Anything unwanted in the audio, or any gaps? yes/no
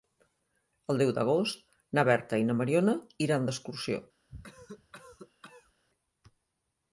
yes